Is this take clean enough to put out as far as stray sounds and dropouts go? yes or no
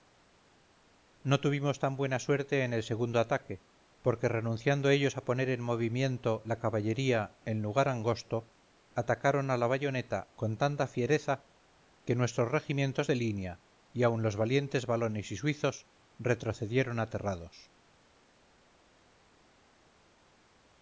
yes